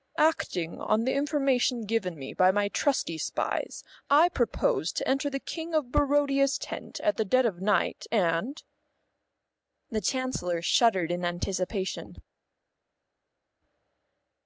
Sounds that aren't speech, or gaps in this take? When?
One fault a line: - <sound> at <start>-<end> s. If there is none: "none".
none